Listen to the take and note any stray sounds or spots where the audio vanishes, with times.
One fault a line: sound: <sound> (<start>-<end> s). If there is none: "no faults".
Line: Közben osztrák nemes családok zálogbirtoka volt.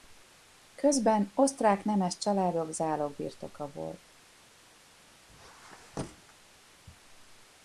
sound: squeak (5.3-6.4 s)